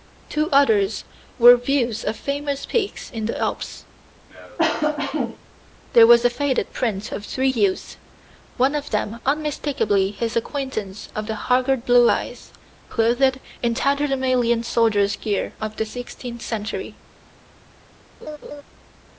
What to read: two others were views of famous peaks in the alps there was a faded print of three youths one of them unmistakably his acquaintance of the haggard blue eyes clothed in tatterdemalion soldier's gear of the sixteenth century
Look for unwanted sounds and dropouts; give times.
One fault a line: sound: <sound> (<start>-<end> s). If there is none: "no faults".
sound: cough (4.3-5.4 s)
sound: laugh (18.2-18.6 s)